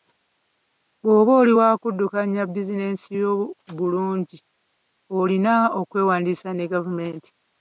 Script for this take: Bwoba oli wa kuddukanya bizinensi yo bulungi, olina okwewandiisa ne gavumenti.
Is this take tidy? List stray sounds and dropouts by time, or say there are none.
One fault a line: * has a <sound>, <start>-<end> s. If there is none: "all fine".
all fine